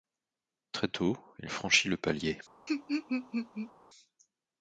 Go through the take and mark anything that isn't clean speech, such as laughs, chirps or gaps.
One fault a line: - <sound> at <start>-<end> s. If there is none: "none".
- laugh at 2.7-3.7 s